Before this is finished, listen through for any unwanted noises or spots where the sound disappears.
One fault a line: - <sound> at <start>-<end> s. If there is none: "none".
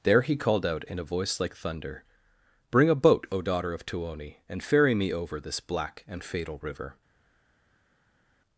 none